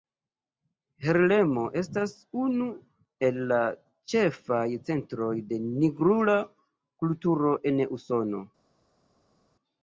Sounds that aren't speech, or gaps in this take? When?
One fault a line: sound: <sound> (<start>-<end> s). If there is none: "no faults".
no faults